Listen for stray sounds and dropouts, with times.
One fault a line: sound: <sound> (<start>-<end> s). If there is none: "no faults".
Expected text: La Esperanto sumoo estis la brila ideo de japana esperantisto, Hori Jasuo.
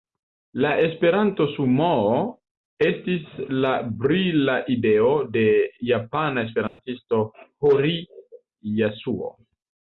sound: dropout (6.7-6.8 s)